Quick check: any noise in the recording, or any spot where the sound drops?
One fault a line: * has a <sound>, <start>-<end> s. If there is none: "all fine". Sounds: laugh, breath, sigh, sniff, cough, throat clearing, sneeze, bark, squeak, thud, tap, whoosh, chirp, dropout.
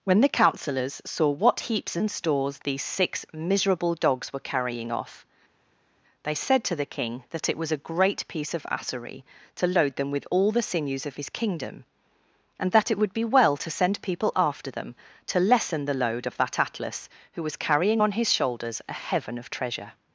all fine